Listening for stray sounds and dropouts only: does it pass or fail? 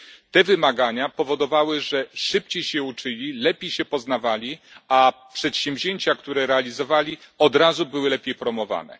pass